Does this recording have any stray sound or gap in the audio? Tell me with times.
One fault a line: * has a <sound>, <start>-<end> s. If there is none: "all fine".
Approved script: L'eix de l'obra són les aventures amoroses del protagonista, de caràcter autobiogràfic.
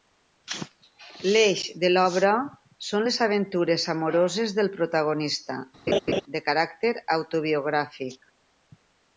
* has a laugh, 5.9-6.2 s